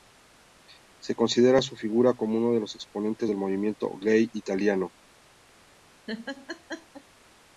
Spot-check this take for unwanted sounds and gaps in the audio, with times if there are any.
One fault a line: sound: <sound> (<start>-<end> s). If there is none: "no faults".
sound: laugh (6.1-7.0 s)